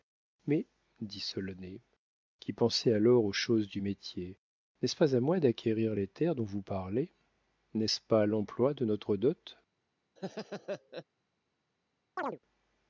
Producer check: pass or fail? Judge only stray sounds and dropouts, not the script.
fail